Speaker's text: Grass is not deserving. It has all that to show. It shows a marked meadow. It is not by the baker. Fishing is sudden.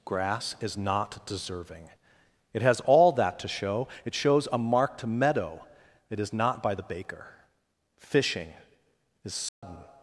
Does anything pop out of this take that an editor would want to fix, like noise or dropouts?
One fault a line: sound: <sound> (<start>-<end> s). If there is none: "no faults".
sound: dropout (9.5-9.6 s)